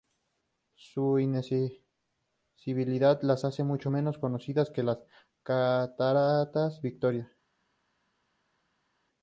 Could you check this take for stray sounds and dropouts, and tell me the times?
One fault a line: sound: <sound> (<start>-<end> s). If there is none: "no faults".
no faults